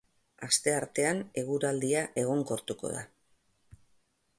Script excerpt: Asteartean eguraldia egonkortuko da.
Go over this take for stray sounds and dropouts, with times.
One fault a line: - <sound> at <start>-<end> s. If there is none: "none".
none